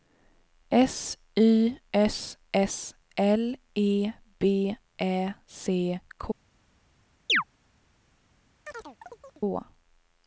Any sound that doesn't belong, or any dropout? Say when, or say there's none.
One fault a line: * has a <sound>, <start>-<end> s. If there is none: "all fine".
* has a chirp, 7.3-7.4 s
* has a chirp, 8.6-9.4 s